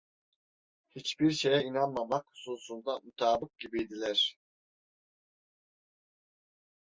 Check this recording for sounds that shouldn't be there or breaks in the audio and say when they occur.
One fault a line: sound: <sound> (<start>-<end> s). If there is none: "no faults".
no faults